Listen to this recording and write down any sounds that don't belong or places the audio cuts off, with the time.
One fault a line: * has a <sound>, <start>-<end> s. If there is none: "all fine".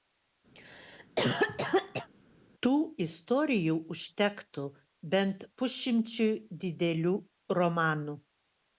* has a cough, 0.5-2.1 s